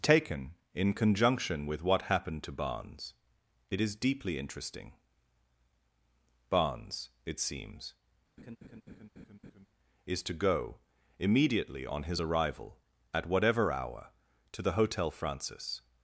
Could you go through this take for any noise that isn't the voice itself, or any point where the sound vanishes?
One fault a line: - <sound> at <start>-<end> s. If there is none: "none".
- laugh at 8.4-9.7 s